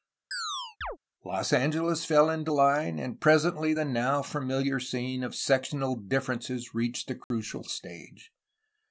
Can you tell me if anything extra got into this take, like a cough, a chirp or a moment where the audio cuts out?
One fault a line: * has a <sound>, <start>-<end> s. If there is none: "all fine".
* has a chirp, 0.3-1.0 s
* has a dropout, 7.2-7.3 s